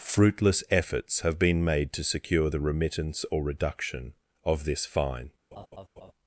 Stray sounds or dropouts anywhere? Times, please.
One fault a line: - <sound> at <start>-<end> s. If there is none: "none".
- laugh at 5.5-6.1 s